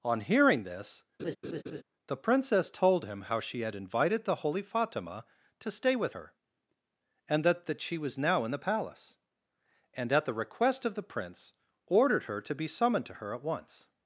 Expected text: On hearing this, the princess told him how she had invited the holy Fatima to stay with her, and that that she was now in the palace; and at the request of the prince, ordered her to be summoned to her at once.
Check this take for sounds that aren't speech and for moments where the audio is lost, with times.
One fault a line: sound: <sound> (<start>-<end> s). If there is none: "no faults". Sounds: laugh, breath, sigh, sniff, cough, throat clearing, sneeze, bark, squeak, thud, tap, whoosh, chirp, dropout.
sound: laugh (1.2-1.8 s)